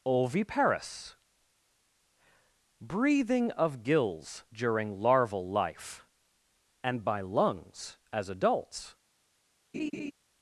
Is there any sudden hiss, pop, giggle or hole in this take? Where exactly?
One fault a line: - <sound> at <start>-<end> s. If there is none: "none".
- laugh at 9.7-10.1 s